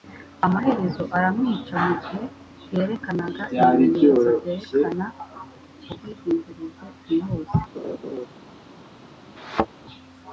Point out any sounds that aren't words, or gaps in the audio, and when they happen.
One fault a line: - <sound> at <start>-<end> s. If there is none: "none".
- laugh at 7.7-8.3 s
- thud at 9.4-9.7 s